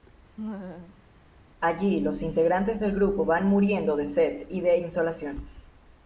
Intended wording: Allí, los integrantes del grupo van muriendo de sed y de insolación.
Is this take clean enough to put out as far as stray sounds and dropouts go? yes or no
no